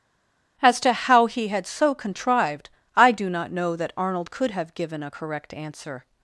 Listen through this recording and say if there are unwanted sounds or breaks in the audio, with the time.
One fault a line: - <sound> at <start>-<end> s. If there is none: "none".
none